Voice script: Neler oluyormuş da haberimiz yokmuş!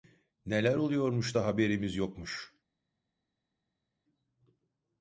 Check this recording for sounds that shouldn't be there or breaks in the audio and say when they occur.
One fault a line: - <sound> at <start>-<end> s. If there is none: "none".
none